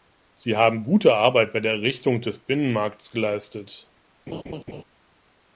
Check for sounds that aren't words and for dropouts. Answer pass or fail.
fail